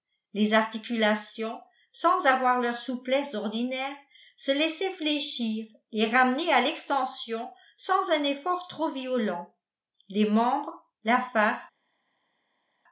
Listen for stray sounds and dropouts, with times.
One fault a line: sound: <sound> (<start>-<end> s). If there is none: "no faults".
no faults